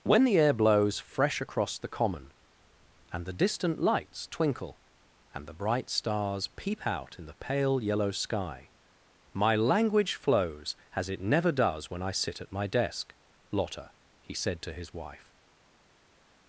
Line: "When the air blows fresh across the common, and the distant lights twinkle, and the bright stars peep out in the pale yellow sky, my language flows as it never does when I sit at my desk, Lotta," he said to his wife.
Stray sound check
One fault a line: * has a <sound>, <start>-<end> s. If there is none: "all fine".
all fine